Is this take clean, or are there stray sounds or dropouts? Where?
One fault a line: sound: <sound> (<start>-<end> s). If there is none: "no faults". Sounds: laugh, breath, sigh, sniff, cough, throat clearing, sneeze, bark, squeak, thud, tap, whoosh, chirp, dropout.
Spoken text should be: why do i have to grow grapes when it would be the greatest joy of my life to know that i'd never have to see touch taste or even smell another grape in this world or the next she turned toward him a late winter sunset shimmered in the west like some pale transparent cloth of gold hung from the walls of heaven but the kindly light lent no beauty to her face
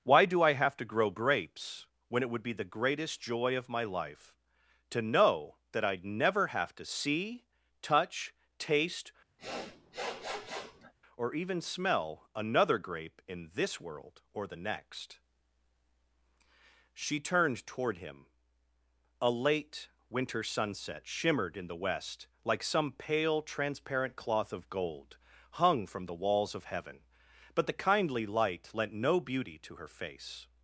sound: sniff (9.4-10.9 s)